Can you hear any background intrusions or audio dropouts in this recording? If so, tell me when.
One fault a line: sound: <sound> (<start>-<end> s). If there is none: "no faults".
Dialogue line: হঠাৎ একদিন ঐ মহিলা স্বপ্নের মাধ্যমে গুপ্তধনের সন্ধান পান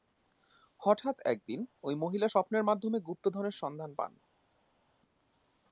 no faults